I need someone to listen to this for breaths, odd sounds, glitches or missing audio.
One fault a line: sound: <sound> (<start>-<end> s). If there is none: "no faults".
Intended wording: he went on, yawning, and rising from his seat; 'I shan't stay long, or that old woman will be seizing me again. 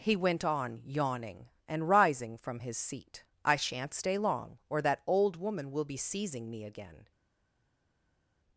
no faults